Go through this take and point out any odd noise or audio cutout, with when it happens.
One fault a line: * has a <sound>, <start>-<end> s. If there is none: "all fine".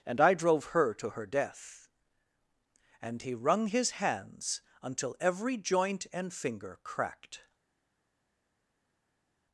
all fine